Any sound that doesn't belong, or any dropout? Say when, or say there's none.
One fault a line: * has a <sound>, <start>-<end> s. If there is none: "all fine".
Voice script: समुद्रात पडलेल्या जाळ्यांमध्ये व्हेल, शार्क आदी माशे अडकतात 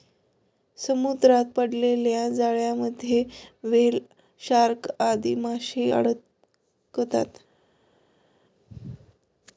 all fine